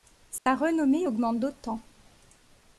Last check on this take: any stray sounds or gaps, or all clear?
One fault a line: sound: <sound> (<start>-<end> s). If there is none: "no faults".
sound: dropout (0.4-0.5 s)